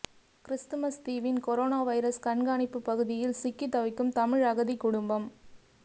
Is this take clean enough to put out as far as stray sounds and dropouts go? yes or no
yes